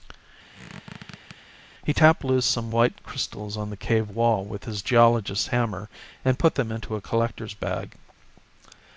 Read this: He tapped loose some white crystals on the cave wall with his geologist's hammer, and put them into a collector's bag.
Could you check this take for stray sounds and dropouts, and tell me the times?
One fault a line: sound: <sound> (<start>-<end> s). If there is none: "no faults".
sound: squeak (0.5-1.4 s)